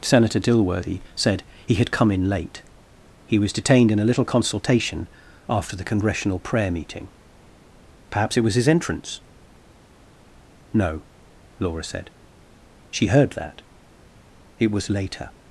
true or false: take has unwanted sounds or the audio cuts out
false